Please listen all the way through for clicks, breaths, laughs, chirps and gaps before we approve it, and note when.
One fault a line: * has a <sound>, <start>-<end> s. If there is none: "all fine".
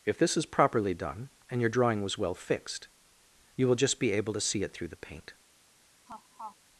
* has a laugh, 6.1-6.6 s